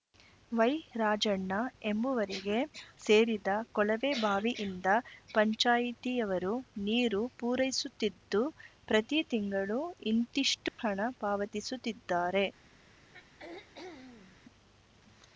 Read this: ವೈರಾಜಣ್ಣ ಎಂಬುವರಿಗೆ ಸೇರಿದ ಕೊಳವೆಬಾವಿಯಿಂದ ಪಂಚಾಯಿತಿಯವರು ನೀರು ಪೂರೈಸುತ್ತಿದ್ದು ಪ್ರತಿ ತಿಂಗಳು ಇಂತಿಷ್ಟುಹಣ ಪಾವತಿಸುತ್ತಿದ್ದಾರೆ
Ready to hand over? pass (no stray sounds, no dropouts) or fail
fail